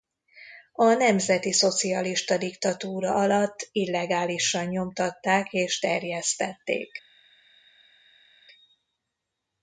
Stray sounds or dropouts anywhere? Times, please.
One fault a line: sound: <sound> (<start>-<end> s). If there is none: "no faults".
no faults